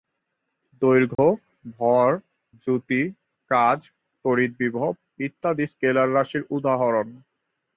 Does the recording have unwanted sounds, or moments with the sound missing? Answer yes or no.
yes